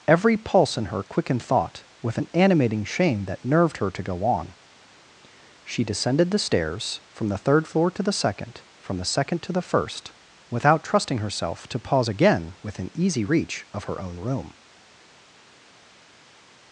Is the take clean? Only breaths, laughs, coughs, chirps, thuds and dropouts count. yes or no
yes